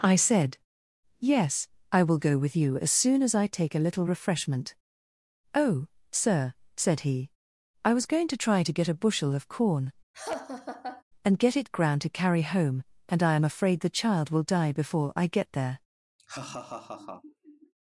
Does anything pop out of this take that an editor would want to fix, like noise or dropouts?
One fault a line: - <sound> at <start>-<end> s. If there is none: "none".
- laugh at 10.1-11.0 s
- laugh at 16.2-17.7 s